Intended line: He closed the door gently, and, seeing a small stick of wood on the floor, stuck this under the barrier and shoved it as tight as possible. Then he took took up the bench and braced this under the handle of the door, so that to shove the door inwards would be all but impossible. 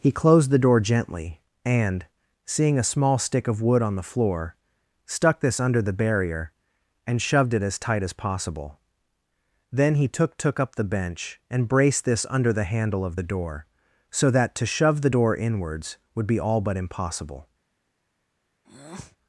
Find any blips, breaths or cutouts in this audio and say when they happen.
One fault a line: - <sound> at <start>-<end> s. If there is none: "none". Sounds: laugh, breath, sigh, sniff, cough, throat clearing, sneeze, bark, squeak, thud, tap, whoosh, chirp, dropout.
- breath at 18.6-19.2 s